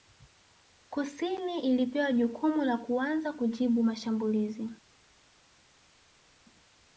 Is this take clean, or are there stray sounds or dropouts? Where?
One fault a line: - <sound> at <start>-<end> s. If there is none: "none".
none